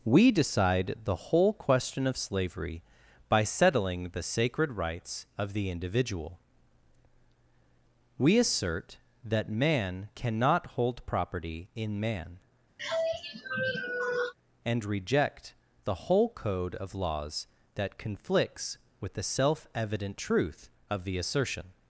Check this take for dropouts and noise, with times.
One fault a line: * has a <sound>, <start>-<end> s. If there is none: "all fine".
* has a sigh, 12.8-14.3 s